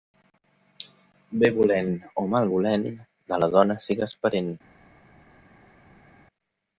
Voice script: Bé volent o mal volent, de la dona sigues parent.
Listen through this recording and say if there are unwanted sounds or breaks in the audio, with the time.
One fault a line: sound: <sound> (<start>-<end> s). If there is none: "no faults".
no faults